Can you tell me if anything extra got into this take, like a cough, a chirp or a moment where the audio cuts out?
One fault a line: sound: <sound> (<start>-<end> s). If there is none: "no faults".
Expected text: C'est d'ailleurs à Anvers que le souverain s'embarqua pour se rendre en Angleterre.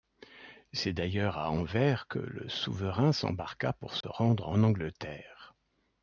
sound: dropout (4.0-4.0 s)